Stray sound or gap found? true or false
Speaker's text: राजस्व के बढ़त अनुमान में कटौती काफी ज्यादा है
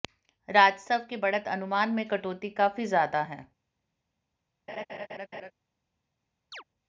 true